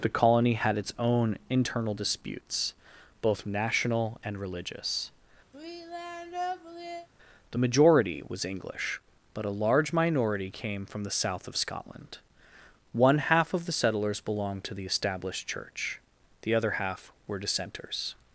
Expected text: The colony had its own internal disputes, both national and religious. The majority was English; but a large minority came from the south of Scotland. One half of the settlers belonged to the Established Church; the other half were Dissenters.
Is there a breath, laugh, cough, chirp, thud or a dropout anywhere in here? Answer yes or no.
yes